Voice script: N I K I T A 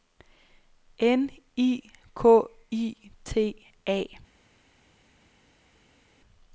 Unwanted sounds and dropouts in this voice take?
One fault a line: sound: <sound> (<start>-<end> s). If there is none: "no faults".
no faults